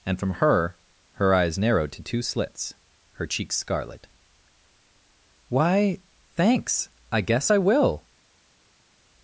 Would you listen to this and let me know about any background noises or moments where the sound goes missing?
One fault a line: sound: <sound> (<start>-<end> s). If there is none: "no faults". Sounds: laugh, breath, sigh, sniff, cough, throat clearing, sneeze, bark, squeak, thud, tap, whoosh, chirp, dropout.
no faults